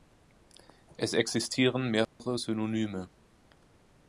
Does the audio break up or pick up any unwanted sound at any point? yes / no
yes